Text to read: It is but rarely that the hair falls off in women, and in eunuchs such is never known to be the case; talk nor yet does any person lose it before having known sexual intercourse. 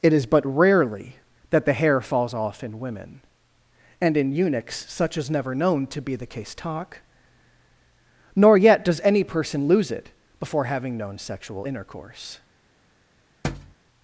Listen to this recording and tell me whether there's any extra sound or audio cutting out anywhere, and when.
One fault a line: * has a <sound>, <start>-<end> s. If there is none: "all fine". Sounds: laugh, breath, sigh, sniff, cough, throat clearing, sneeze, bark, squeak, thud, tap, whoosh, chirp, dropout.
* has a thud, 13.4-13.8 s